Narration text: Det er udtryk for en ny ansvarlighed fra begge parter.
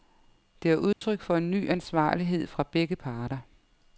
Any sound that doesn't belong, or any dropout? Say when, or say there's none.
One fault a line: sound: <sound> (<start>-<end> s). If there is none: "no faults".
sound: dropout (0.9-1.0 s)